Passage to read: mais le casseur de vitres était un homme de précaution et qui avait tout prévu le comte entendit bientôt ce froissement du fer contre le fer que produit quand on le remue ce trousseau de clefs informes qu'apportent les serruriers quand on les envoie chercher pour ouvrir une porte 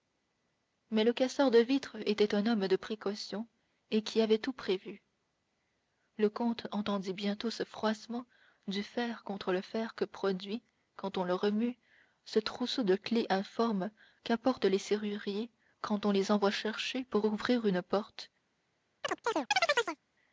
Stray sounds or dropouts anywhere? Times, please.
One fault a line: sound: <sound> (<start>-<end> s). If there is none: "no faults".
sound: chirp (19.0-20.0 s)